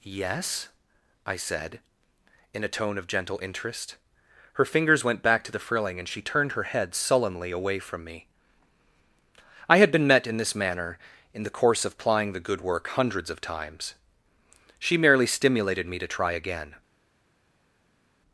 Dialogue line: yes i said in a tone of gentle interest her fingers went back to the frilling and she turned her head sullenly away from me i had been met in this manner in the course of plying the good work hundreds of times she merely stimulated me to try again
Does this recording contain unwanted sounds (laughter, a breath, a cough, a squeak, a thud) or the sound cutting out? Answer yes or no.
no